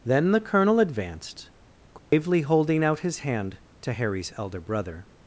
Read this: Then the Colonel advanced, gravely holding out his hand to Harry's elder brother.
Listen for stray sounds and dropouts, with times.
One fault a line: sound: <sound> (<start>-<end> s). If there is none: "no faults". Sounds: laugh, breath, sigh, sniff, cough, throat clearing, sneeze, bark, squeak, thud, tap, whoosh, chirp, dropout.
sound: dropout (2.0-2.1 s)